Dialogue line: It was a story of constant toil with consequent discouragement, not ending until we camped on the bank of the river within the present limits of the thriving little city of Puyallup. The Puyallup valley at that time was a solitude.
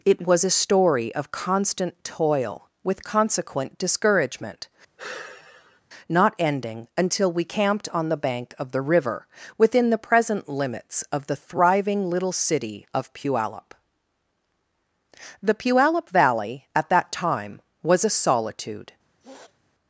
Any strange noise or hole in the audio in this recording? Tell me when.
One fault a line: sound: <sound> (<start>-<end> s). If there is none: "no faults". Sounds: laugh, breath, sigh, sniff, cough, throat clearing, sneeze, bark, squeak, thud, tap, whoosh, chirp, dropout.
sound: sigh (5.0-5.8 s)
sound: sniff (19.2-19.6 s)